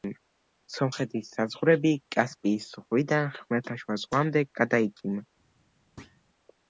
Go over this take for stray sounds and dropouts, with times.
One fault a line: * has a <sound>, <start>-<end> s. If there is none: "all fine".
* has a thud, 6.0-6.2 s